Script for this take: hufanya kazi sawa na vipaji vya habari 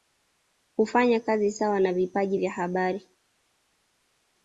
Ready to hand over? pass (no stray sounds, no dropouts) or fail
pass